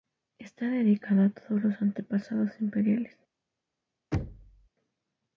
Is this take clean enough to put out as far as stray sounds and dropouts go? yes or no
no